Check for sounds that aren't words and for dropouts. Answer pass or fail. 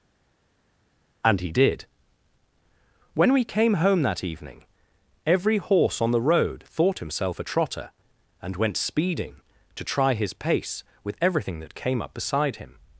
pass